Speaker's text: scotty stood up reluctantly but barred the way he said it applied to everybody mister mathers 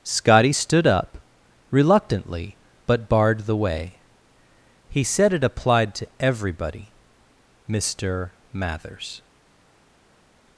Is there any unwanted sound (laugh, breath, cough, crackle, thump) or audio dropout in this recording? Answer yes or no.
no